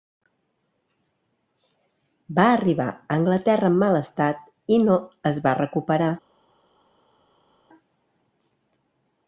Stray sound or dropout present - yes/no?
no